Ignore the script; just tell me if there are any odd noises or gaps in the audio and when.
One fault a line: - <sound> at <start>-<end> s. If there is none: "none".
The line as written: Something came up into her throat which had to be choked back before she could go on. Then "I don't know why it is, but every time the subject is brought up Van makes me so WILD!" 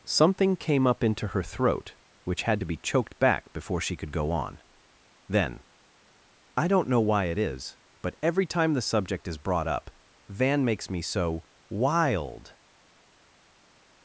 none